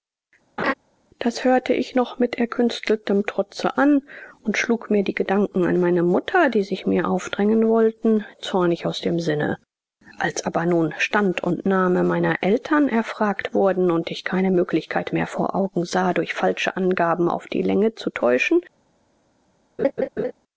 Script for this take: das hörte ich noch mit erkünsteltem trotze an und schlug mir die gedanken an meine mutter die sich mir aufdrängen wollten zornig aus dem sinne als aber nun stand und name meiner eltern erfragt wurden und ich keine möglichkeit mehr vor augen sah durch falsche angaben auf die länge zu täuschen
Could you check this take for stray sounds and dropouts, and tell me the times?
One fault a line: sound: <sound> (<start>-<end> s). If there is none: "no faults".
sound: laugh (0.6-0.7 s)
sound: laugh (19.8-20.3 s)